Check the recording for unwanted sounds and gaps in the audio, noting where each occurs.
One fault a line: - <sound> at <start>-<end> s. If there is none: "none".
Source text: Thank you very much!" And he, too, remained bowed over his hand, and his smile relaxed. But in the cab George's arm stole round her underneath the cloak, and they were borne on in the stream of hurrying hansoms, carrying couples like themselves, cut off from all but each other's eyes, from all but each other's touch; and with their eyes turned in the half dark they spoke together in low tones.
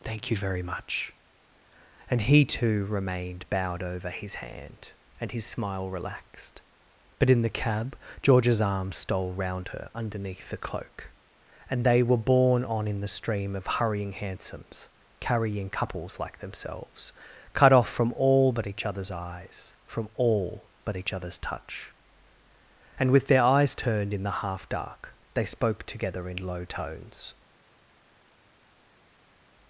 none